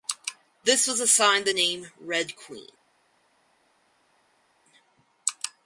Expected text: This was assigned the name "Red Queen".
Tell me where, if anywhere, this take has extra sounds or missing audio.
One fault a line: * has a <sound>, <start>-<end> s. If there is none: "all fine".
all fine